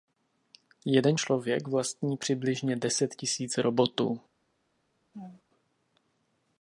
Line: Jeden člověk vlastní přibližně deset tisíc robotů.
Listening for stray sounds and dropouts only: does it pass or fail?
fail